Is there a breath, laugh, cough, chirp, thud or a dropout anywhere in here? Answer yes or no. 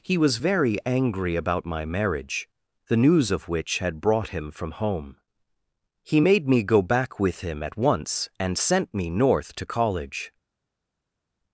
no